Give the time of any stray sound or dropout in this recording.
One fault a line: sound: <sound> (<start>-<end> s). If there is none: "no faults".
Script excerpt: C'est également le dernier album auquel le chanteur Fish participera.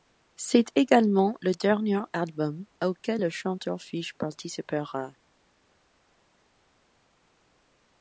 no faults